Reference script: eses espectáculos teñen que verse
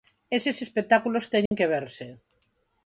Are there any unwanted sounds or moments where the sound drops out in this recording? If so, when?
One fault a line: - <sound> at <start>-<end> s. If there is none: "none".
- dropout at 1.5-1.5 s